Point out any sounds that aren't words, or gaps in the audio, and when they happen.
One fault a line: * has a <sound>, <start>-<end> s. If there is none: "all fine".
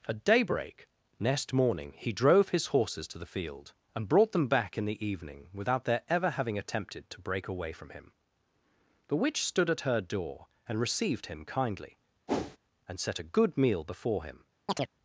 * has a whoosh, 12.3-12.6 s
* has a chirp, 14.7-14.9 s